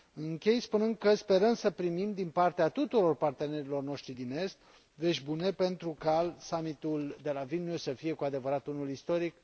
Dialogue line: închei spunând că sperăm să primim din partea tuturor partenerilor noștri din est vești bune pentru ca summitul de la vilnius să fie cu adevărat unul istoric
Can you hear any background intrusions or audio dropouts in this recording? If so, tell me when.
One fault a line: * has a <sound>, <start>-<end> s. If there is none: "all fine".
all fine